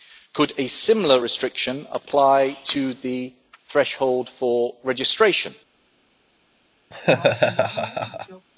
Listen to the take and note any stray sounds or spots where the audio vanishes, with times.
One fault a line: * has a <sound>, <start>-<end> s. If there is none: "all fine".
* has a laugh, 6.9-8.5 s